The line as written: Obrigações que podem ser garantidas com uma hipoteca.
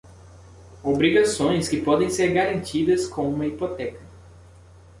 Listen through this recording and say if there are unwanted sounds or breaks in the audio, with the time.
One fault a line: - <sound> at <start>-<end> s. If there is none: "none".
none